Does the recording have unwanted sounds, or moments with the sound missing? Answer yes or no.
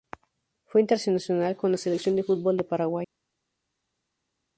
no